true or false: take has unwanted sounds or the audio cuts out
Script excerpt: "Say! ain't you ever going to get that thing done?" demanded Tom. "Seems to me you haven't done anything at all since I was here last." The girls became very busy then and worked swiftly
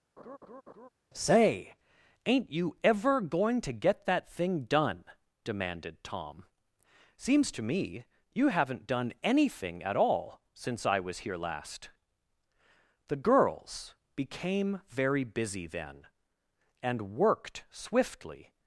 true